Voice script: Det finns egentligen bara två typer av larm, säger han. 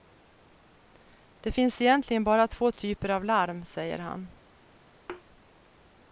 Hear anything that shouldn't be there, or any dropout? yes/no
yes